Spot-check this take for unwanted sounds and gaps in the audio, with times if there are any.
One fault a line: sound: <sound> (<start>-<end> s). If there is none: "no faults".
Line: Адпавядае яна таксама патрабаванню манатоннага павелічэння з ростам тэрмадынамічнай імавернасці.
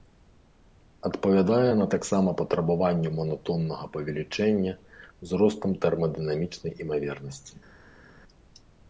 no faults